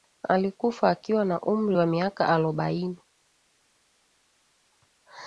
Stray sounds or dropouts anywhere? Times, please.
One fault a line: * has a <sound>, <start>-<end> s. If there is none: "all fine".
all fine